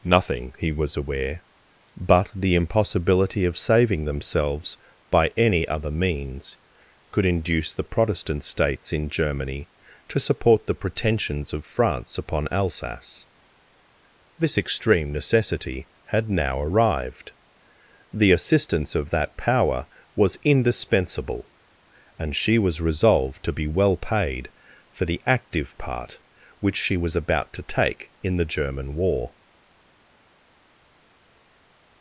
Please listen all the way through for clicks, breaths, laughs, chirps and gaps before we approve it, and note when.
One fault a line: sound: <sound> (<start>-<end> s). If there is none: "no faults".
no faults